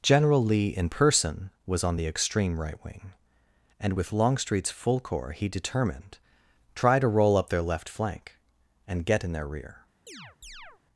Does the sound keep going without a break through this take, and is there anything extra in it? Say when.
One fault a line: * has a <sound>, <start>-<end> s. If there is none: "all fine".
* has a chirp, 10.1-10.8 s